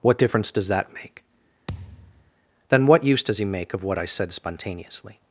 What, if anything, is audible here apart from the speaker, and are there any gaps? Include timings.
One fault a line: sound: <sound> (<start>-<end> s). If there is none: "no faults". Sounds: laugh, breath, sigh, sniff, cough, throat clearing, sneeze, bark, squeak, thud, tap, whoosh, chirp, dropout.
sound: thud (1.7-2.3 s)